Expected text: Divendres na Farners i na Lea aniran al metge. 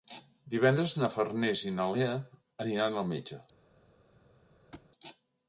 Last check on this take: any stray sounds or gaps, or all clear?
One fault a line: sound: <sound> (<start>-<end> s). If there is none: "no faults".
sound: thud (4.7-4.9 s)